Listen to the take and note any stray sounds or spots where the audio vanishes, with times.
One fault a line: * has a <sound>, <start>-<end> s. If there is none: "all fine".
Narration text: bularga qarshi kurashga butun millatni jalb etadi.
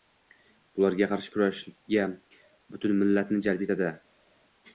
all fine